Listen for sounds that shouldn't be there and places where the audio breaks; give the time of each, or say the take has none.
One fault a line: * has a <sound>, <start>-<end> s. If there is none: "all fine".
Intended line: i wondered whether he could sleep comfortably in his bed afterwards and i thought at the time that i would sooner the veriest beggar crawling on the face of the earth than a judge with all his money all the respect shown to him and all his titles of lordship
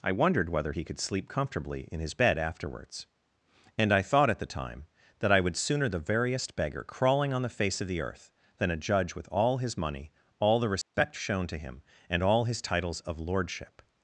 * has a dropout, 10.8-10.9 s